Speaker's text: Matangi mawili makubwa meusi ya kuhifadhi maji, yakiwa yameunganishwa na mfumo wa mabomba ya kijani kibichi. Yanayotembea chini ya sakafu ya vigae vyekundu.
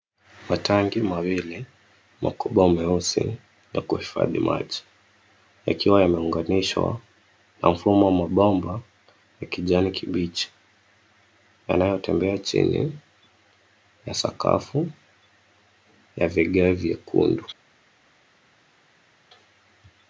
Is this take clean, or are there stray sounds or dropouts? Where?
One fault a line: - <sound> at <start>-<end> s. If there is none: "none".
none